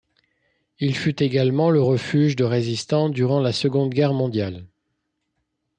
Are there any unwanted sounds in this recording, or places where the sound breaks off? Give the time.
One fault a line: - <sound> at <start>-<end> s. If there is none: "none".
none